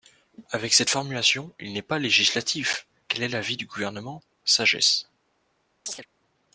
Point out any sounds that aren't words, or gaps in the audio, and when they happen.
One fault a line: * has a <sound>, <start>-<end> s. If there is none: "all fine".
* has a chirp, 5.9-6.1 s